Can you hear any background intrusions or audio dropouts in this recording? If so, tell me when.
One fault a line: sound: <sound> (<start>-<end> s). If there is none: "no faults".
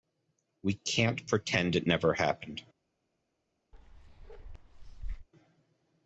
sound: bark (3.7-5.3 s)